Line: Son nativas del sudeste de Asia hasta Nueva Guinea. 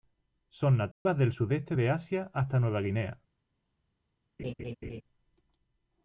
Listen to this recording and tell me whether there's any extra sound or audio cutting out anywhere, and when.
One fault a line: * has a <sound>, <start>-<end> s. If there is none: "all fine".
* has a dropout, 0.9-1.1 s
* has a laugh, 4.4-5.0 s